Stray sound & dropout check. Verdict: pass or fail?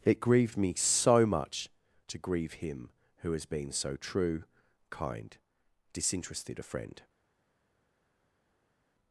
pass